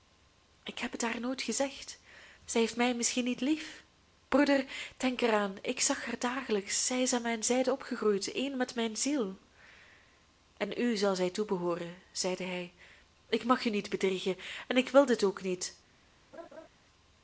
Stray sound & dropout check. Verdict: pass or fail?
fail